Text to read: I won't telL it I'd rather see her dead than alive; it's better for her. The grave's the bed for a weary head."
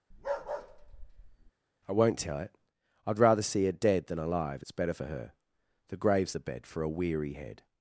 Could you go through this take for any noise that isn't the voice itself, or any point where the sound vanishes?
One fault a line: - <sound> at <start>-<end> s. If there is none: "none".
- bark at 0.1-1.5 s